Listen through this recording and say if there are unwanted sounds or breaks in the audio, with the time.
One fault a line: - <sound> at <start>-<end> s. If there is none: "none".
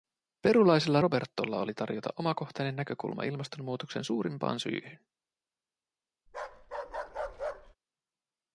- bark at 6.3-7.8 s